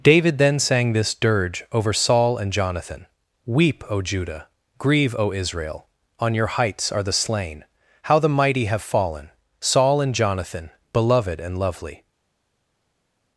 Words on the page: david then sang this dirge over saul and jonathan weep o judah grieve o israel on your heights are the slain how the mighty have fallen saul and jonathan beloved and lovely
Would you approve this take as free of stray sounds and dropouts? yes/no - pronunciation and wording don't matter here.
yes